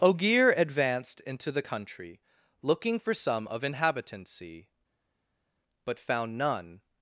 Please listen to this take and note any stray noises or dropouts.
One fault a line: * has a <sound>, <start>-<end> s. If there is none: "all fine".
all fine